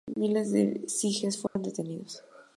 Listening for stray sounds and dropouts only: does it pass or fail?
fail